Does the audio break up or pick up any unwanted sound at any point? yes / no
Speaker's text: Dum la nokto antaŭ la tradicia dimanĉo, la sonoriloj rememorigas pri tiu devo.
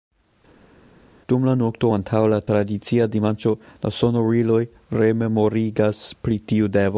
no